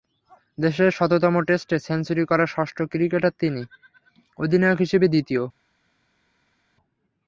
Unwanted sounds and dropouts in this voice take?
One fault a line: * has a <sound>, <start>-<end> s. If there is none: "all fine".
all fine